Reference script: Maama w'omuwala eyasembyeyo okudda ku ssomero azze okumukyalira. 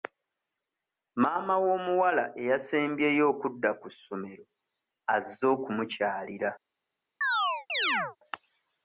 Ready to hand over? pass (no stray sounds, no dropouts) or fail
fail